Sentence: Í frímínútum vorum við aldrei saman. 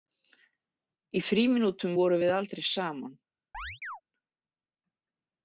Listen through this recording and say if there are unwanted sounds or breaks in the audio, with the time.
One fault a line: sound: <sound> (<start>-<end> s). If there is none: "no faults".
sound: chirp (3.5-4.0 s)